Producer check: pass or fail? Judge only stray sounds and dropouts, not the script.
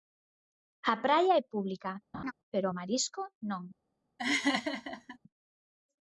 fail